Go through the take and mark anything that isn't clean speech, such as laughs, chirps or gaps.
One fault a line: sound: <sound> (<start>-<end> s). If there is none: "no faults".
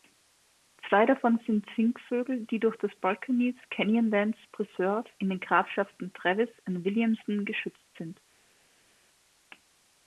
no faults